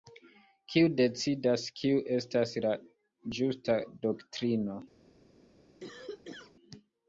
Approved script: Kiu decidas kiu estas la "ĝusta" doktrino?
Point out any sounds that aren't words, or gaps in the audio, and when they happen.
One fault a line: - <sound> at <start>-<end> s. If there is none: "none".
- cough at 5.8-6.5 s